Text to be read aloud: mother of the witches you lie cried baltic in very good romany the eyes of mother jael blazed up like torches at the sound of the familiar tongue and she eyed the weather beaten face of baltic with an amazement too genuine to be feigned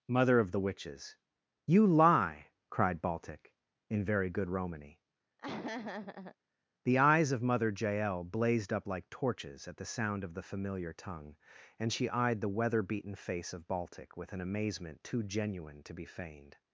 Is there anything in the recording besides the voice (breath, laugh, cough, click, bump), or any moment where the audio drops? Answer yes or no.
yes